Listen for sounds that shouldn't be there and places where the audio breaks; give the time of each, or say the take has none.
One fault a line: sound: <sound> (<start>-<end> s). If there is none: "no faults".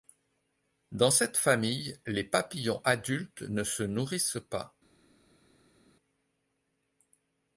no faults